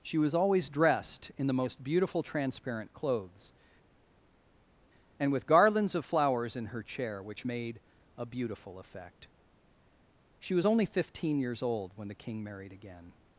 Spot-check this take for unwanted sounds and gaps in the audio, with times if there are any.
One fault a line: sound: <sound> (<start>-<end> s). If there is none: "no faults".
no faults